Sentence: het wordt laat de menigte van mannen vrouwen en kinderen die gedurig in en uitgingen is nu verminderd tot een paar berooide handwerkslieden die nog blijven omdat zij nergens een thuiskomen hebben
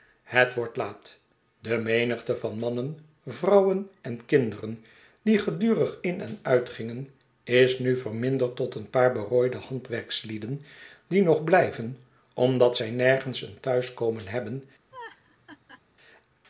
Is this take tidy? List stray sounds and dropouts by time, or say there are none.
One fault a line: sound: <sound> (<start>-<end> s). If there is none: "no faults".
sound: laugh (14.9-15.8 s)